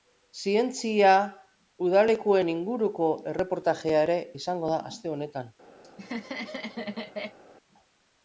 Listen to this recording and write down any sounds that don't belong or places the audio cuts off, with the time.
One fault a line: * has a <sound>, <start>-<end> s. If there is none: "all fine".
* has a laugh, 5.8-7.4 s